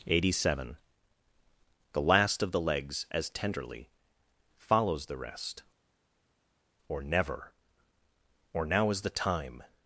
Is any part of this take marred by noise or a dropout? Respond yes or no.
no